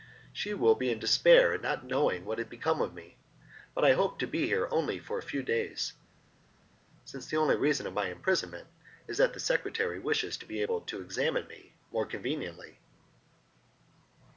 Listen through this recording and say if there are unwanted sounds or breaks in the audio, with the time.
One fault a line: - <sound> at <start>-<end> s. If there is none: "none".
none